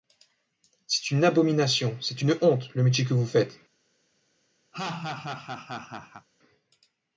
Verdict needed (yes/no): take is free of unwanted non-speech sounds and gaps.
no